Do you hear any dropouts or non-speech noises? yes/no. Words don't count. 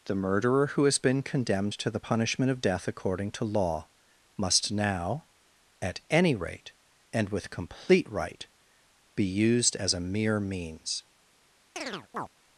yes